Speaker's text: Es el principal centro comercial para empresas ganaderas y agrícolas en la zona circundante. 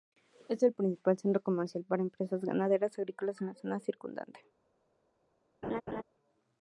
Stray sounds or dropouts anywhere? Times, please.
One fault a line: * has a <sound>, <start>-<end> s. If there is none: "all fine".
* has a laugh, 5.6-6.0 s